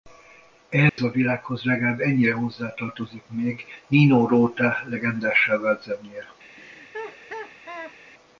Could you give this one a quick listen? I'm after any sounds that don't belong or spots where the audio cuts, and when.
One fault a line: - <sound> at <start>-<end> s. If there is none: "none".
- dropout at 0.9-1.0 s
- laugh at 6.5-8.0 s